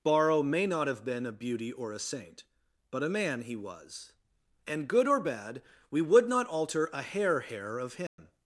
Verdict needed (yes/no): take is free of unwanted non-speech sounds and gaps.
no